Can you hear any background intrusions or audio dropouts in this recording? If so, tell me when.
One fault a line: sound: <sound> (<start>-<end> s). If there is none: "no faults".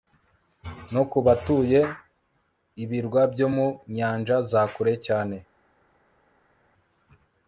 no faults